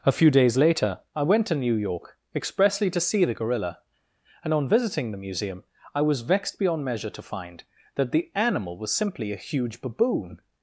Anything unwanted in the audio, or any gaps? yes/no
no